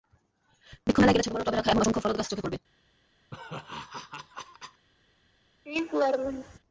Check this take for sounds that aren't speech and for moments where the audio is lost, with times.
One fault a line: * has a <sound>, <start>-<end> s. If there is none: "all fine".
* has a laugh, 3.3-4.9 s
* has a laugh, 5.7-6.6 s